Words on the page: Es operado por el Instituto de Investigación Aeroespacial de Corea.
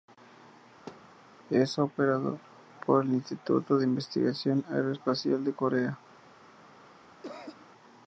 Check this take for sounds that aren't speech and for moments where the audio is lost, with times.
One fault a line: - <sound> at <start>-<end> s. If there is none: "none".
- thud at 0.9-1.2 s
- cough at 6.9-7.7 s